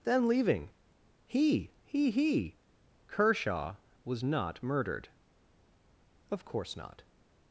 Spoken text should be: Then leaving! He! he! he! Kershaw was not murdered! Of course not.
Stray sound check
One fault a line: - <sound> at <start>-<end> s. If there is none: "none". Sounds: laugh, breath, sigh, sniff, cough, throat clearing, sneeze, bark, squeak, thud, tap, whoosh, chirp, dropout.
none